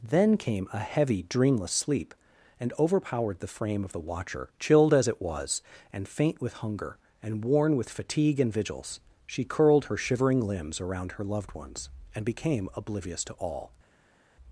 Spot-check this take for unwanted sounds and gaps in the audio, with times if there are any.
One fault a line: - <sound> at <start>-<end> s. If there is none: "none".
none